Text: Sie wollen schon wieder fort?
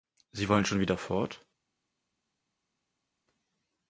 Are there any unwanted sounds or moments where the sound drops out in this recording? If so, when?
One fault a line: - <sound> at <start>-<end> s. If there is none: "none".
none